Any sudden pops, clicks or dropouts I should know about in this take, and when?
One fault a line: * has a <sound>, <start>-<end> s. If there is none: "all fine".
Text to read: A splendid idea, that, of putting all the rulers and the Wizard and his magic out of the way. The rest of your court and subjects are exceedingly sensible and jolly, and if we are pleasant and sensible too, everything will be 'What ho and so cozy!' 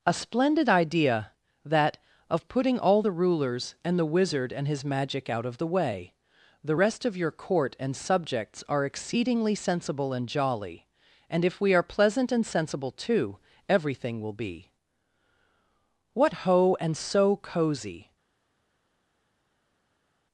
all fine